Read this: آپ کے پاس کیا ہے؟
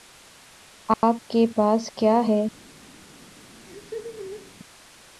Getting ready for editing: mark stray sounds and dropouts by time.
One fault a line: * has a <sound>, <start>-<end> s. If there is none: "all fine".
* has a dropout, 0.9-1.0 s
* has a laugh, 3.6-4.5 s